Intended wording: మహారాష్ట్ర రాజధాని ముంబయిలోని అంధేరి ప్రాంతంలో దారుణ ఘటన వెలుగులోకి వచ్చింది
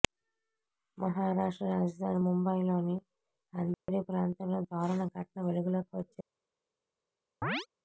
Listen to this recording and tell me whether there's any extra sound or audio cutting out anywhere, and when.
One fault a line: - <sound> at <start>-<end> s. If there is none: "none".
- dropout at 3.7-3.9 s
- chirp at 7.4-7.7 s